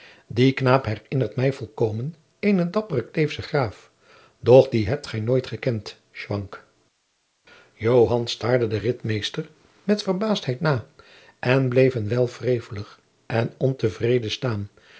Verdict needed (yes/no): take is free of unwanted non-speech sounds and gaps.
yes